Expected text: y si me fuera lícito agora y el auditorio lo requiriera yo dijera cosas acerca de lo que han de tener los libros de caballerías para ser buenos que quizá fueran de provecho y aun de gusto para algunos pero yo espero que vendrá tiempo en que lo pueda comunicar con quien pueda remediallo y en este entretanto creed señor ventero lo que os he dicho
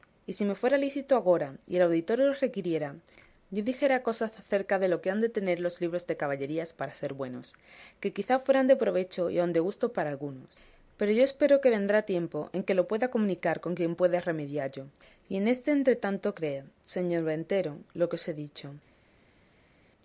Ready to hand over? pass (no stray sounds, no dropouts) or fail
pass